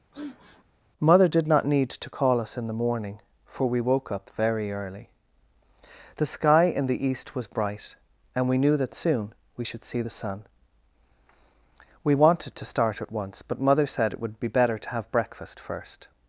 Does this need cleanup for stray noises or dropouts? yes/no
yes